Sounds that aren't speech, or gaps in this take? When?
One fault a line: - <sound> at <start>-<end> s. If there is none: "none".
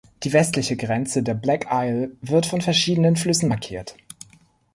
none